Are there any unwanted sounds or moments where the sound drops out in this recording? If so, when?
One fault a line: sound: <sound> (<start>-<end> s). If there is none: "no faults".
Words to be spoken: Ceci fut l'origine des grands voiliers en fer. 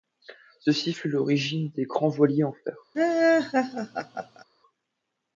sound: laugh (2.9-4.4 s)